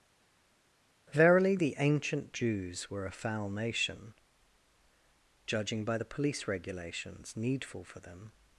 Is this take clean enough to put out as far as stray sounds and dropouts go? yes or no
yes